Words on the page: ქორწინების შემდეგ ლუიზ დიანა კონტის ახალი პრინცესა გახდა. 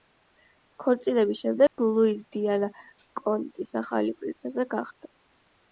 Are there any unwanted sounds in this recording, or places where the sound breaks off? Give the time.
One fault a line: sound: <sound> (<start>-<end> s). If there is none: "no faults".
sound: dropout (1.7-1.8 s)